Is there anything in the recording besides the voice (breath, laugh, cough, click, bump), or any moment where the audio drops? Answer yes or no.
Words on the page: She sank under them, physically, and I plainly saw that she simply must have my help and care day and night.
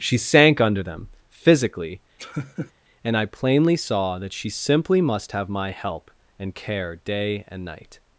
yes